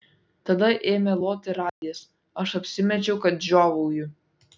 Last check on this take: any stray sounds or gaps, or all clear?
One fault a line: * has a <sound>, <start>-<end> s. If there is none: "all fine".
* has a dropout, 1.7-1.8 s